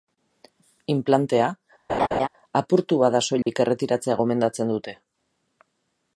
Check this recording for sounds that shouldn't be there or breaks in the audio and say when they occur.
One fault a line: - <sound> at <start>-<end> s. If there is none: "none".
- laugh at 1.9-2.3 s
- dropout at 3.4-3.5 s